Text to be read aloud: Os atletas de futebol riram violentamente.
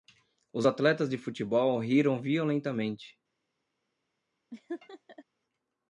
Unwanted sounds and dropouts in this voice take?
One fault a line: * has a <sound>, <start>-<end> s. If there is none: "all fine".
* has a laugh, 4.5-5.2 s